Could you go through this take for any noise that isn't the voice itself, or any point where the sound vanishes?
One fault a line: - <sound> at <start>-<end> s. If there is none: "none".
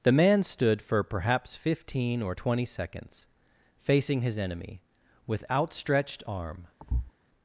- thud at 6.8-7.1 s